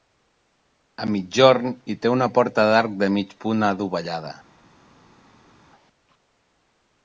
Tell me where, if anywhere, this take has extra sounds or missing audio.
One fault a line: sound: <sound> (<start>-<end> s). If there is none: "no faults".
no faults